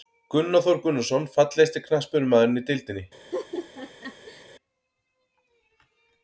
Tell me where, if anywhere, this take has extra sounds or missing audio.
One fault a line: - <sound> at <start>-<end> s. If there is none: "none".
- laugh at 3.3-4.5 s